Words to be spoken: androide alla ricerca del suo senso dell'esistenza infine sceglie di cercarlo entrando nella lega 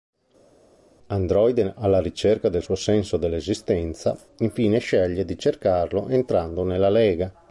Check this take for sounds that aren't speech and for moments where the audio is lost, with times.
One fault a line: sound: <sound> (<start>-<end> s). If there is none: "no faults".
no faults